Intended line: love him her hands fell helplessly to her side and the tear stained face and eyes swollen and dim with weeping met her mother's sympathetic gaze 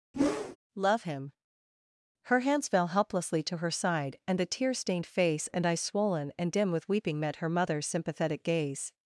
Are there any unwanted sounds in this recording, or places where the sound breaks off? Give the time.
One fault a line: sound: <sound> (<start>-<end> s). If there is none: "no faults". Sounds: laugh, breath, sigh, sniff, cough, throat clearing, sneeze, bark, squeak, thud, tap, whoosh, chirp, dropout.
sound: whoosh (0.1-0.6 s)